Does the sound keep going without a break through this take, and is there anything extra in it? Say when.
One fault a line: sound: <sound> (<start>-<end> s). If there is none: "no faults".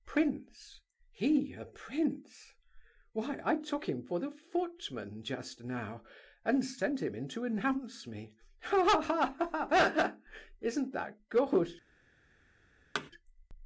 sound: thud (12.9-13.1 s)